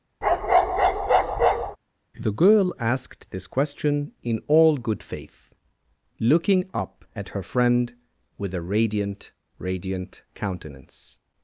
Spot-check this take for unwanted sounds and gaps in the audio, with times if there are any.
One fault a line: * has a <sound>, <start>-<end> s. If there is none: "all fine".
* has a bark, 0.2-1.8 s